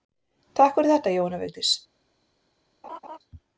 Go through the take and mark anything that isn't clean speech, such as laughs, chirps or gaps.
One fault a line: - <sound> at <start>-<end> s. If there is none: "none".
- laugh at 2.8-3.2 s